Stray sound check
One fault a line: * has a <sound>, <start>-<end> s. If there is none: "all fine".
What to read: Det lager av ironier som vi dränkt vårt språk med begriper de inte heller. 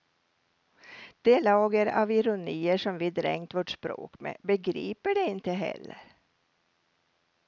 all fine